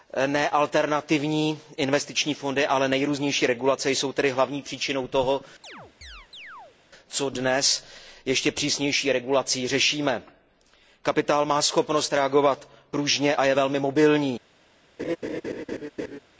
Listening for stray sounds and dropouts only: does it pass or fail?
fail